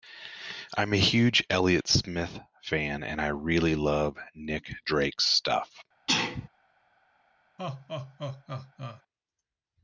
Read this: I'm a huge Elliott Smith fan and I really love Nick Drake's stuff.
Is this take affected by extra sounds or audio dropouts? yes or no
yes